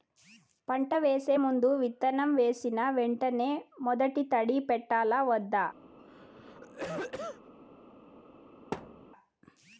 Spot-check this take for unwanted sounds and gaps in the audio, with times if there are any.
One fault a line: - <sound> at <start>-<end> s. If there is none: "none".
- cough at 6.0-7.5 s
- thud at 8.7-9.1 s